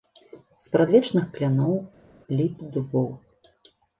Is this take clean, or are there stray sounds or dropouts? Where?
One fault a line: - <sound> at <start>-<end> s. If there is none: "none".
none